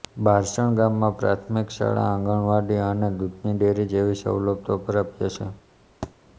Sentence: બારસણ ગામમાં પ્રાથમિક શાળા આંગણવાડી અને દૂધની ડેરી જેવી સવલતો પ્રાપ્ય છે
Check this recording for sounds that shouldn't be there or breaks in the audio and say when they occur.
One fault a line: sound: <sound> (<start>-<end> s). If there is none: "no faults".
sound: thud (6.0-6.1 s)